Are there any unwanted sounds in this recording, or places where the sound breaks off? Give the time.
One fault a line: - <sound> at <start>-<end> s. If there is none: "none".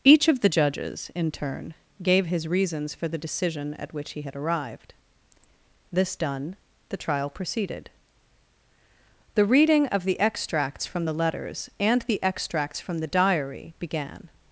none